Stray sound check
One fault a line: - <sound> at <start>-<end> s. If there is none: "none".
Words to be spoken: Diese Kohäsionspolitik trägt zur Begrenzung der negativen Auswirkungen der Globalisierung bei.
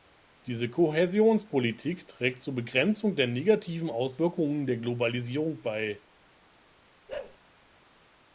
- bark at 7.1-7.4 s